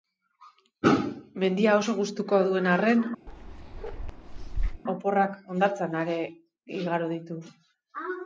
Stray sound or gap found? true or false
true